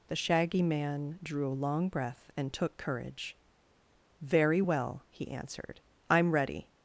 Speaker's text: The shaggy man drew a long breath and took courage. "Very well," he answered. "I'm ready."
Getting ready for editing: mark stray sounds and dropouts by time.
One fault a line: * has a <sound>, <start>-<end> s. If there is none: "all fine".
all fine